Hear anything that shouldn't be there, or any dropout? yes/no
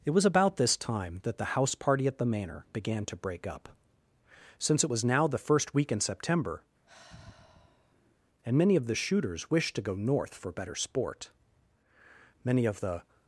yes